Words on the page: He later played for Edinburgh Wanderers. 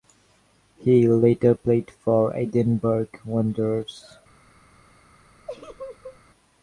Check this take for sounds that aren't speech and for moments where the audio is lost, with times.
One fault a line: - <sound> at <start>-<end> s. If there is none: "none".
- laugh at 5.5-6.2 s